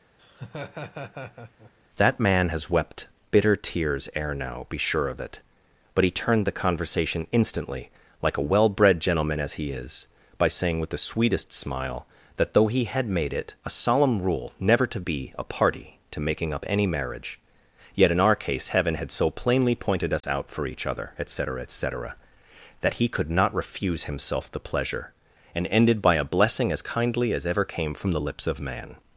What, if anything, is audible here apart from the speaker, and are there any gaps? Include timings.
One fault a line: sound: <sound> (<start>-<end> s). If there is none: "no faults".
sound: laugh (0.2-1.7 s)
sound: dropout (20.2-20.2 s)